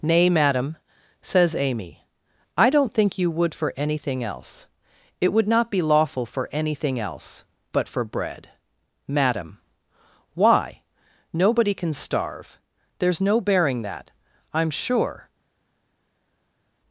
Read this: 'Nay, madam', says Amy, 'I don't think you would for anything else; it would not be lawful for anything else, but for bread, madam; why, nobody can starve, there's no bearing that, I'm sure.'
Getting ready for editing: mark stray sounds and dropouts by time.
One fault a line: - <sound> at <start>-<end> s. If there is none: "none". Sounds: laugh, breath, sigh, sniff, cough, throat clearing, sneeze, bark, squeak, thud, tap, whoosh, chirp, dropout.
none